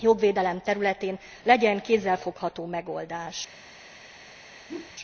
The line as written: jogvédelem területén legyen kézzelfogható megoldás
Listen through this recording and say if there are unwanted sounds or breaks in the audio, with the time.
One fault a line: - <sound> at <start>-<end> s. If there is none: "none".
- whoosh at 4.7-4.9 s